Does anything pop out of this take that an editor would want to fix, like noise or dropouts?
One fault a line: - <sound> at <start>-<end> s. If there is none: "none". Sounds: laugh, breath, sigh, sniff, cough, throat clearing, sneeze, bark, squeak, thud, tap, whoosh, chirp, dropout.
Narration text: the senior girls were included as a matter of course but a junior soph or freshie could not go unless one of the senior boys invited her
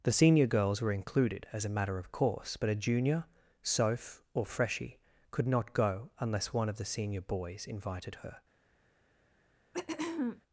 - throat clearing at 9.7-10.4 s